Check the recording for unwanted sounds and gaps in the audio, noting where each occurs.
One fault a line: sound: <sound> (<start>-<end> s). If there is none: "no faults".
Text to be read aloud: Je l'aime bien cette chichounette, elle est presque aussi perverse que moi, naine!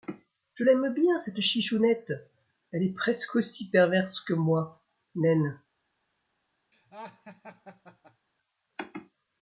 sound: laugh (6.7-8.3 s)